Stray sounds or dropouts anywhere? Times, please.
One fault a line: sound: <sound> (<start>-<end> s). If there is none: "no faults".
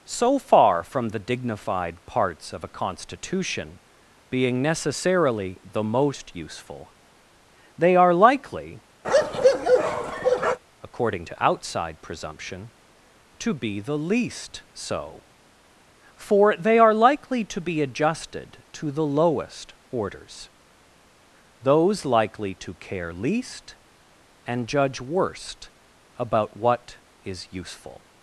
sound: bark (9.0-10.6 s)